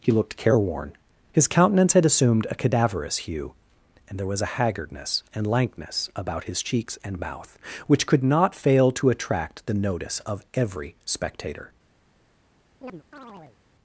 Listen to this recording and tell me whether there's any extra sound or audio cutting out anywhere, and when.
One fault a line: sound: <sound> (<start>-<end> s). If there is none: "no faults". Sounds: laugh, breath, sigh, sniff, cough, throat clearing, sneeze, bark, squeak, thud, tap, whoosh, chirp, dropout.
sound: chirp (12.8-13.6 s)